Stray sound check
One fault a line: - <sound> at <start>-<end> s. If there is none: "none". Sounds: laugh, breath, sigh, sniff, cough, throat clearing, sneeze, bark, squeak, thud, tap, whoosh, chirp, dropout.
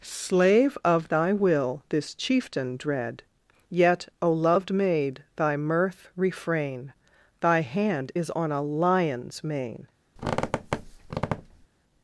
- squeak at 10.2-11.7 s